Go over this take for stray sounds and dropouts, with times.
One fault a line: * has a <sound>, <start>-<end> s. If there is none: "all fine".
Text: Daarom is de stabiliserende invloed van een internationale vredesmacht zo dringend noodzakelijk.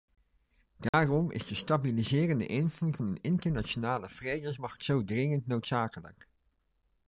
* has a dropout, 0.9-0.9 s